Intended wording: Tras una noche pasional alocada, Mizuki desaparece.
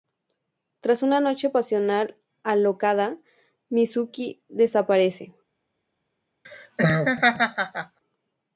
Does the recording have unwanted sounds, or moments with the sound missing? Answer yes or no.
yes